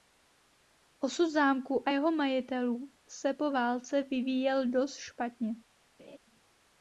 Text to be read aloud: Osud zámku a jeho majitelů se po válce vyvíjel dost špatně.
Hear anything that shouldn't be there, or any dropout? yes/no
yes